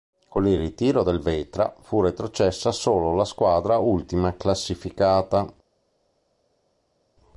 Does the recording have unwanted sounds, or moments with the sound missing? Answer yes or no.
no